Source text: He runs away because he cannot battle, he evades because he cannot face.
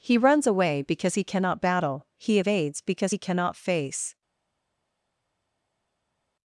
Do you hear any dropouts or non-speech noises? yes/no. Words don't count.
no